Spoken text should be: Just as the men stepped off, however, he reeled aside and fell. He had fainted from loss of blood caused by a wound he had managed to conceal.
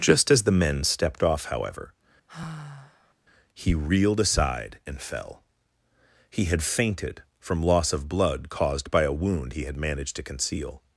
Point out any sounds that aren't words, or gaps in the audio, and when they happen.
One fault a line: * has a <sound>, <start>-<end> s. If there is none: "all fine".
* has a sigh, 2.3-3.1 s